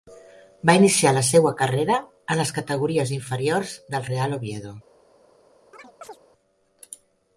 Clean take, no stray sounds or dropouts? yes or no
no